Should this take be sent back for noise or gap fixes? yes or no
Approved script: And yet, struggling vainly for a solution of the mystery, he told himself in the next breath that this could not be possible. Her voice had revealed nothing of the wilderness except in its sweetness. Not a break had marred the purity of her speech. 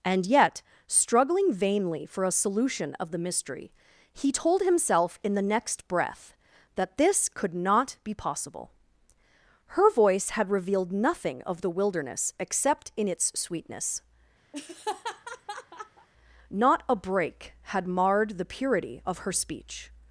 yes